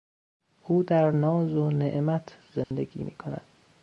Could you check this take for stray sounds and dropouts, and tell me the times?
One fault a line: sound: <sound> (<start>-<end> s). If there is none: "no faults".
sound: dropout (2.6-2.7 s)